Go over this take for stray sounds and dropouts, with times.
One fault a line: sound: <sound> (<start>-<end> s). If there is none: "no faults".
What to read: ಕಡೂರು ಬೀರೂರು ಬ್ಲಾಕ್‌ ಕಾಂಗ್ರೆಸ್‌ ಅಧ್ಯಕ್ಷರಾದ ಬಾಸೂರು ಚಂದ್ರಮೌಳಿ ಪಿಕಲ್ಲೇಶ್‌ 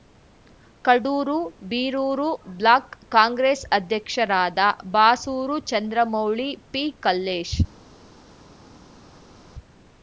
no faults